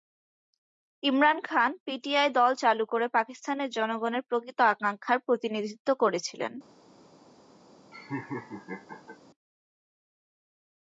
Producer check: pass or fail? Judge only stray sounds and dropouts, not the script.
fail